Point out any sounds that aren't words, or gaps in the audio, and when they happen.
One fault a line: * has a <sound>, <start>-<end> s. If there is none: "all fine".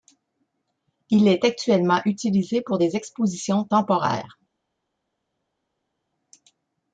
all fine